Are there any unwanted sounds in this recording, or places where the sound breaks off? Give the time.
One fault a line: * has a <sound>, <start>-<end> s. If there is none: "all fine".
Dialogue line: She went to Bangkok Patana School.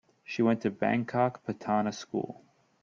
all fine